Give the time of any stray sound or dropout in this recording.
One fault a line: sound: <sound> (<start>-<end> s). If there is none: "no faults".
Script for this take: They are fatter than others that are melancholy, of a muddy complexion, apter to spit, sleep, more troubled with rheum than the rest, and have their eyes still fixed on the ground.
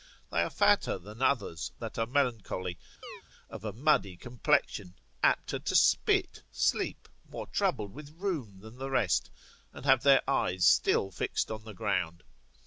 sound: chirp (3.0-3.2 s)